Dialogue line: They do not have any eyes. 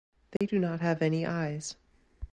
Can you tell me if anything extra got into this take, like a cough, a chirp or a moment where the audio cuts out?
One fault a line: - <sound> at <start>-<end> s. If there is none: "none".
- dropout at 0.4-0.4 s